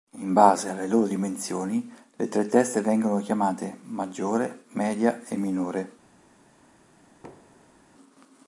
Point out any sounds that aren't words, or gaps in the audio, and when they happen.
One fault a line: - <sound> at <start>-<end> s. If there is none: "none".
- thud at 7.2-7.8 s